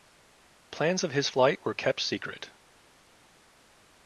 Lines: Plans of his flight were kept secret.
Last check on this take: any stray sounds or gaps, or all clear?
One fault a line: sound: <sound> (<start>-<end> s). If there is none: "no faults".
no faults